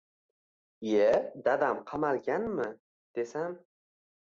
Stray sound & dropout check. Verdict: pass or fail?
pass